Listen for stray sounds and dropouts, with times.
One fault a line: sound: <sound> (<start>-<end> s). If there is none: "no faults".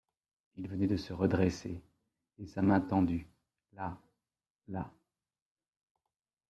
no faults